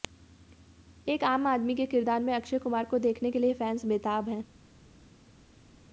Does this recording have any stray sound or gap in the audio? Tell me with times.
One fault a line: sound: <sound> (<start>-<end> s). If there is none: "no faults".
no faults